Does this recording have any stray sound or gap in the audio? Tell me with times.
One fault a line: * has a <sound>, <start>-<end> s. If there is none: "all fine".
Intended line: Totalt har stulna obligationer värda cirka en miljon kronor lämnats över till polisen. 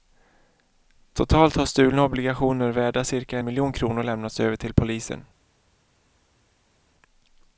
all fine